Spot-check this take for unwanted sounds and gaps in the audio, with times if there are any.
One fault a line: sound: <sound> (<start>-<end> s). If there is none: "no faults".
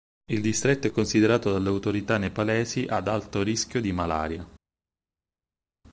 no faults